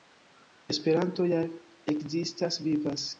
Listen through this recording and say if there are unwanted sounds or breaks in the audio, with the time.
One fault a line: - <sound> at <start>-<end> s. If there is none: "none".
none